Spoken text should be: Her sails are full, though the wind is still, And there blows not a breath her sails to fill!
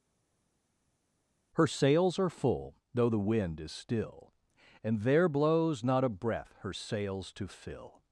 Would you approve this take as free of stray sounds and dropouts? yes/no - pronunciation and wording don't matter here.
yes